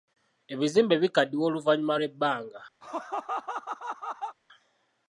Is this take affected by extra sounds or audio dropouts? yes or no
yes